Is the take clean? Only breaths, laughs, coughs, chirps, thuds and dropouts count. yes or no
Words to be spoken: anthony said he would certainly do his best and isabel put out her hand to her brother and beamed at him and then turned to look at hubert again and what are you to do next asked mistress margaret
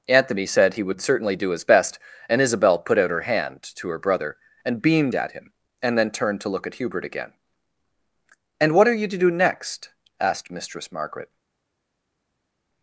yes